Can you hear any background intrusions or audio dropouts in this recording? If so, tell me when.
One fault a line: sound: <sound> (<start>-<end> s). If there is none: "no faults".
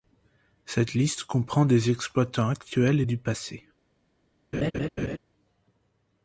sound: laugh (4.5-5.2 s)